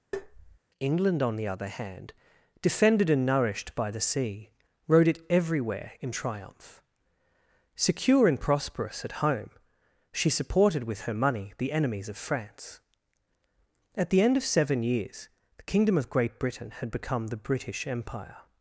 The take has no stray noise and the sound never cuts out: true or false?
false